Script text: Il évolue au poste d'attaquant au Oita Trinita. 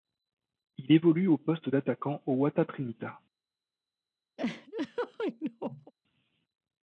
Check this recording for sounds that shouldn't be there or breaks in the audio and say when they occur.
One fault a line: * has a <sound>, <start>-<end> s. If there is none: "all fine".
* has a laugh, 4.4-5.9 s